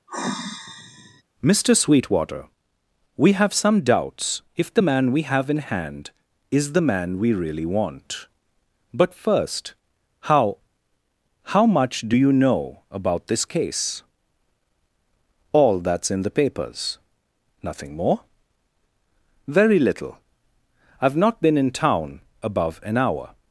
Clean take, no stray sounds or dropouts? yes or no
no